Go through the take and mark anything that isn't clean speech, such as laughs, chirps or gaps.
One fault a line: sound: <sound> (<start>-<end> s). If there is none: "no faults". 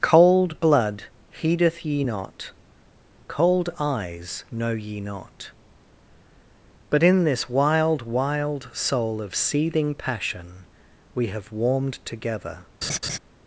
sound: laugh (12.8-13.2 s)